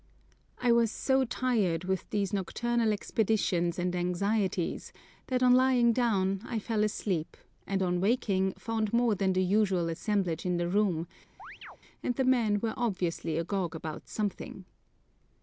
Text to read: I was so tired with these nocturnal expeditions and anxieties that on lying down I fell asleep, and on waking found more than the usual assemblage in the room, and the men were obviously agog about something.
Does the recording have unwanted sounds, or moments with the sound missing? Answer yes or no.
yes